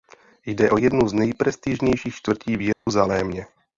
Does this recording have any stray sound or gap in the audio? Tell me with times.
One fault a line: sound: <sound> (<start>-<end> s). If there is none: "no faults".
sound: dropout (2.7-2.9 s)